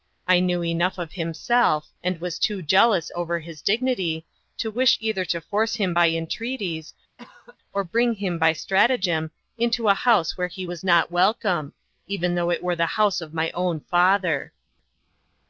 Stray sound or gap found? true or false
true